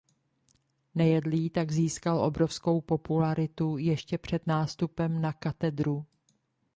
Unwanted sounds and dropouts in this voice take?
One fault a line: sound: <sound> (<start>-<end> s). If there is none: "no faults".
no faults